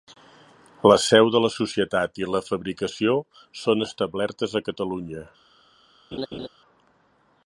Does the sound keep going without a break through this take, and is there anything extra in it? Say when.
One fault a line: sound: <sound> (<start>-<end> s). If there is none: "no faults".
sound: laugh (6.1-6.5 s)